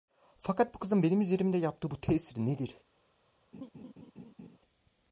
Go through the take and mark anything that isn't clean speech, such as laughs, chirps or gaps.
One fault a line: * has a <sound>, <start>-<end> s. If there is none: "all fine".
* has a laugh, 3.5-4.6 s